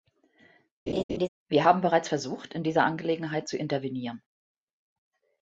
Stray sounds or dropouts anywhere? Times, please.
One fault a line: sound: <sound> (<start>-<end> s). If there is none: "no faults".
sound: laugh (0.9-1.3 s)